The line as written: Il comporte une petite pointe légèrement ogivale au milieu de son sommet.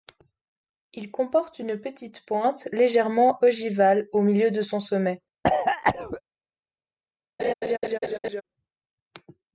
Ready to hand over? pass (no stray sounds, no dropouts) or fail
fail